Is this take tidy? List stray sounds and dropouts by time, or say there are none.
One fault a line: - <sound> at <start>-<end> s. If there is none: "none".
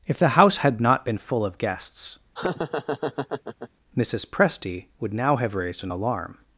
- laugh at 2.3-3.7 s